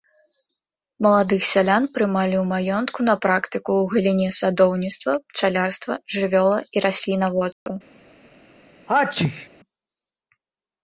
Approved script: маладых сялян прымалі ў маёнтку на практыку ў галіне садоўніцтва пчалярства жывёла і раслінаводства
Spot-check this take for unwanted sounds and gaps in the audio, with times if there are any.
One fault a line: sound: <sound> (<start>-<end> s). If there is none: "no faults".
sound: dropout (7.5-7.7 s)
sound: sneeze (8.9-9.5 s)